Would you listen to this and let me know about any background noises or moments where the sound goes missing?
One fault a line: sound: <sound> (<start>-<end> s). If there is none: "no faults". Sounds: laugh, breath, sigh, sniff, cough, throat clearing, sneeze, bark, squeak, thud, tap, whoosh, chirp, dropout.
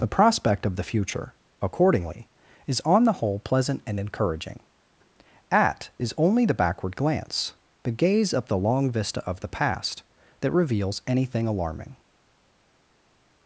no faults